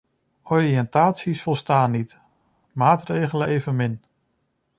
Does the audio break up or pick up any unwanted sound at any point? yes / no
no